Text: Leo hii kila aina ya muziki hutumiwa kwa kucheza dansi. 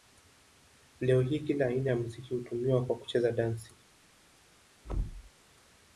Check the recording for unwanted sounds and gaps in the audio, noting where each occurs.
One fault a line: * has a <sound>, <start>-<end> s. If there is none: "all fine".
* has a thud, 4.8-5.3 s